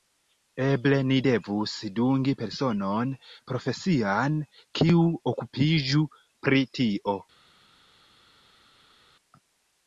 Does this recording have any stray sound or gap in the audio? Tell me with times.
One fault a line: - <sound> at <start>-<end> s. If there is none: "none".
none